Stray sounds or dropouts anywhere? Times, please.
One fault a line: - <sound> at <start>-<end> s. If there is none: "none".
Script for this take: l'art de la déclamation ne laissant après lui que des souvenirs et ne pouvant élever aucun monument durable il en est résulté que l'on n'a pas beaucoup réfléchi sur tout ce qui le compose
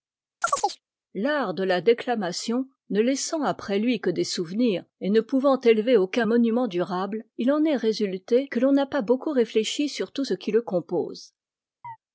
- chirp at 0.4-0.8 s
- chirp at 11.8-12.0 s